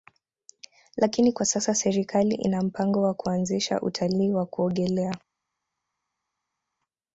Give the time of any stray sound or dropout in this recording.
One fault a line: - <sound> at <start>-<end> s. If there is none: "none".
none